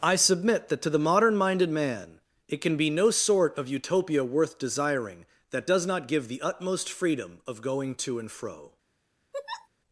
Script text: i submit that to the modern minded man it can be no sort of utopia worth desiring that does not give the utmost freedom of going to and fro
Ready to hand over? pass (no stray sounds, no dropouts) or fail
fail